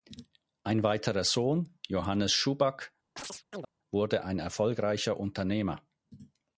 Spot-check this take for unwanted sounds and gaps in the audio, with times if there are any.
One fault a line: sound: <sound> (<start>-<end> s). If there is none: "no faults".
sound: chirp (3.2-3.7 s)